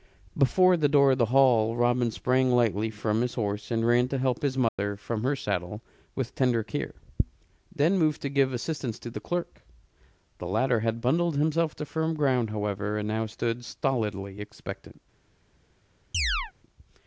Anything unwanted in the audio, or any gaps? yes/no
yes